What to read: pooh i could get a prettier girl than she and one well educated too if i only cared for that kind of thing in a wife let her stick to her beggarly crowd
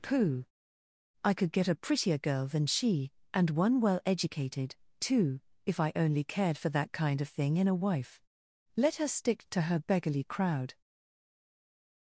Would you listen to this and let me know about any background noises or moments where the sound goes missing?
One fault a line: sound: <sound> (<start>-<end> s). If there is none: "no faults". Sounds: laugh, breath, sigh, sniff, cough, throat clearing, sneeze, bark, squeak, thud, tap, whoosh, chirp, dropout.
no faults